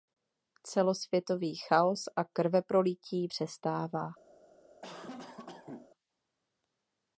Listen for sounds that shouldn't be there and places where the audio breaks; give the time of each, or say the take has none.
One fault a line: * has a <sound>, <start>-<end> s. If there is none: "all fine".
* has a cough, 4.8-5.9 s